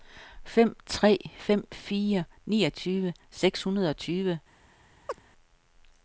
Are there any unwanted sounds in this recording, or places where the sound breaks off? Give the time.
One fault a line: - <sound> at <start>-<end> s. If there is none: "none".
- chirp at 5.1-5.2 s